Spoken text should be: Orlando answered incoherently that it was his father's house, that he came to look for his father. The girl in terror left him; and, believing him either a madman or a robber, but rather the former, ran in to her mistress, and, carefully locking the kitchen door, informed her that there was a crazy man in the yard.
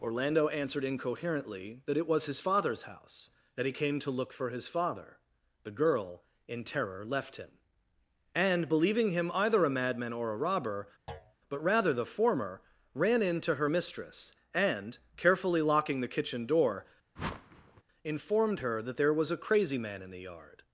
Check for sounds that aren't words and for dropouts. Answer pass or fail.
fail